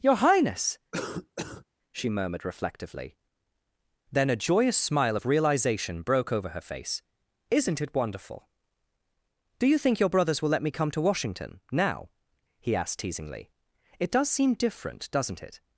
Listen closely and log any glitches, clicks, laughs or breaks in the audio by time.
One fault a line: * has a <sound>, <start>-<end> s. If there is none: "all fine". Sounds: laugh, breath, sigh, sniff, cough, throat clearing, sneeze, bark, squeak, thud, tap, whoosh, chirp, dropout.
* has a cough, 0.9-1.6 s